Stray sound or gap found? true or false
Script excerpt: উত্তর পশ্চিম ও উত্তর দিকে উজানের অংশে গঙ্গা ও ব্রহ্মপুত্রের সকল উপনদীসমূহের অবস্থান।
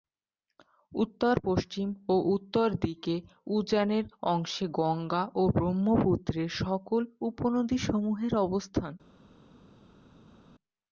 false